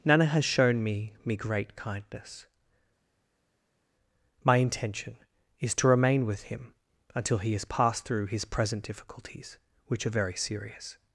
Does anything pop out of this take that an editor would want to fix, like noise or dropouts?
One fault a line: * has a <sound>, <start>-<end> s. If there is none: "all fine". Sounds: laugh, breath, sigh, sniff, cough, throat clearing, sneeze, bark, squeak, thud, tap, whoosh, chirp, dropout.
all fine